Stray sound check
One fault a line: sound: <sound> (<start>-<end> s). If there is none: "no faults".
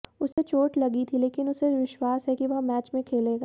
sound: dropout (0.3-0.4 s)